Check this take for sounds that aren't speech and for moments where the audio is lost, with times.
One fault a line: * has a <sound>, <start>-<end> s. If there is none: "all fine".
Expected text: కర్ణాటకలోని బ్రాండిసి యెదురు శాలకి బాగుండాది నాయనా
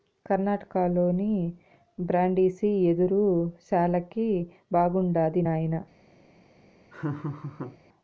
* has a laugh, 6.9-7.8 s